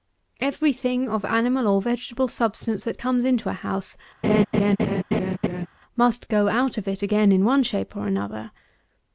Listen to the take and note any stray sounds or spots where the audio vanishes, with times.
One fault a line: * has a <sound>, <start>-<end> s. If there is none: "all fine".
* has a laugh, 4.2-5.7 s